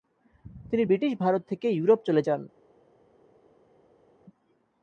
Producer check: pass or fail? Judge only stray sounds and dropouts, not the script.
pass